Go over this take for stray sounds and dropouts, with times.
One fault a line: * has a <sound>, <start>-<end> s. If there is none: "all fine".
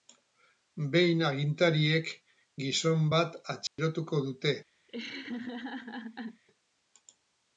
* has a dropout, 3.7-3.8 s
* has a laugh, 4.9-6.4 s